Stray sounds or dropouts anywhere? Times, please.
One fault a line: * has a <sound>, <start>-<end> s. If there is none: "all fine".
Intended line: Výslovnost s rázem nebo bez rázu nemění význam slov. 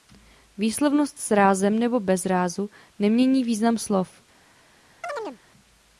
* has a chirp, 5.0-5.4 s